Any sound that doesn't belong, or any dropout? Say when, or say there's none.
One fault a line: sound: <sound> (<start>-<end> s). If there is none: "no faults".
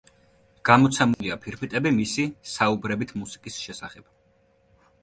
sound: dropout (1.1-1.2 s)